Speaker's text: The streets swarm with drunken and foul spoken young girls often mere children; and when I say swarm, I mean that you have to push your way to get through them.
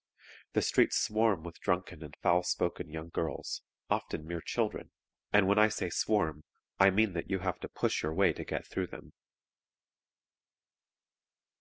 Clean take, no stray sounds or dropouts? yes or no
yes